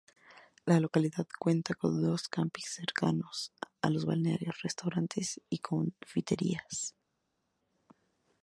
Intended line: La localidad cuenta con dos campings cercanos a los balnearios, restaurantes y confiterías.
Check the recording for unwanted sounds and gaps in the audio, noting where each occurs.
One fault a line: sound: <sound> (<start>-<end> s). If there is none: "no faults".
no faults